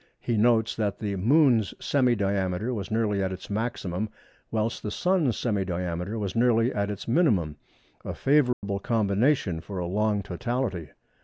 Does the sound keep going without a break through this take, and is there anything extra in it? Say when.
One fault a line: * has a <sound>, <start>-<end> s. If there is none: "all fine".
* has a dropout, 8.5-8.6 s